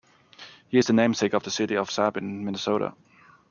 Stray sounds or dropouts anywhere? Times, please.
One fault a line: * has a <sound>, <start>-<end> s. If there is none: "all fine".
all fine